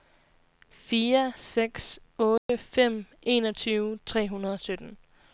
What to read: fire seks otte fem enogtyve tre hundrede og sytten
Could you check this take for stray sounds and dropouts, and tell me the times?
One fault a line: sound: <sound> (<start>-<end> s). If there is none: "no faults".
sound: dropout (2.4-2.5 s)